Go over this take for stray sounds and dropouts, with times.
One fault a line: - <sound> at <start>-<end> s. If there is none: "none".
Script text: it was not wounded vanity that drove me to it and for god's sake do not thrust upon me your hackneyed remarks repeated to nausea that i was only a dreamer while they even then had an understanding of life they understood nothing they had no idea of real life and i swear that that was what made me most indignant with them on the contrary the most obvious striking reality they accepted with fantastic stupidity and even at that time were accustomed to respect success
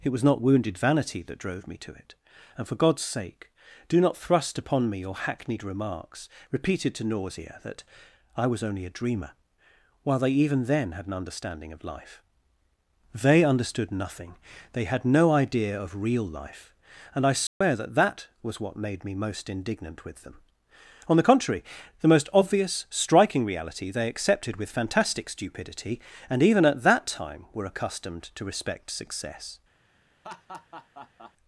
- dropout at 17.5-17.6 s
- laugh at 30.2-31.3 s